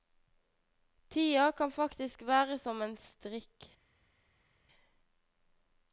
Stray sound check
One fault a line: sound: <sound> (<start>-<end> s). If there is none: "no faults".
no faults